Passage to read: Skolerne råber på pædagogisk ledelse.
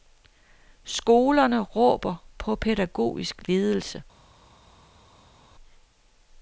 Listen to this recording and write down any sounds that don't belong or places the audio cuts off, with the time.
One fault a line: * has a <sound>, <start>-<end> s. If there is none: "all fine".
all fine